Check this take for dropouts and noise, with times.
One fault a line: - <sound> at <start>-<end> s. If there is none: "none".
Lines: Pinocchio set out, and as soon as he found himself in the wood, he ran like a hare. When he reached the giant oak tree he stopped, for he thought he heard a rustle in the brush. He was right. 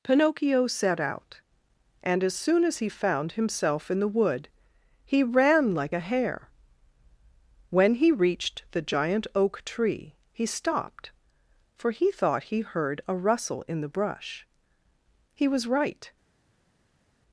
none